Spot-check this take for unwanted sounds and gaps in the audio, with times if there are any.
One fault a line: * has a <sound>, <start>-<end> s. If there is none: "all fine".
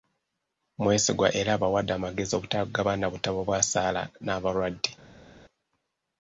all fine